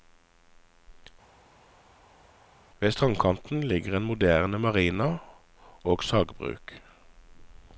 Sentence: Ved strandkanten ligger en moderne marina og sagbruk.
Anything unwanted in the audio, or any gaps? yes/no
no